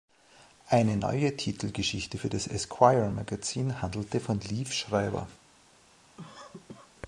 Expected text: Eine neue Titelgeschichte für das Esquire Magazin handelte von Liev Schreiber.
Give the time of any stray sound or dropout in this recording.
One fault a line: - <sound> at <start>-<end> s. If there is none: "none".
- cough at 6.2-6.9 s